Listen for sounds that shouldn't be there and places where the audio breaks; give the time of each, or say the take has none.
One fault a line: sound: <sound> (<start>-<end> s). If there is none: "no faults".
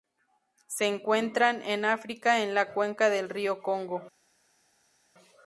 no faults